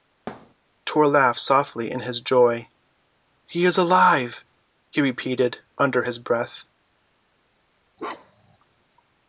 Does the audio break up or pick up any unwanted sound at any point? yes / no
yes